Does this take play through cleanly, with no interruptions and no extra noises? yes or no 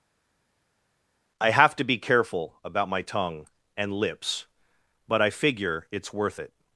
yes